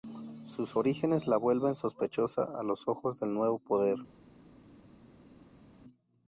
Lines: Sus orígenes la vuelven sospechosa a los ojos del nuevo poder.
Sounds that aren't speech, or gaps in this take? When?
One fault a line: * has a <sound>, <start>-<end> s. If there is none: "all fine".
all fine